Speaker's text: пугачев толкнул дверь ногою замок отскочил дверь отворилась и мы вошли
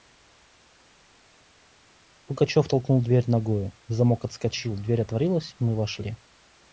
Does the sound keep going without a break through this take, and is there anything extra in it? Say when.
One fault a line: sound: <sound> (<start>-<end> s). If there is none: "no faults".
no faults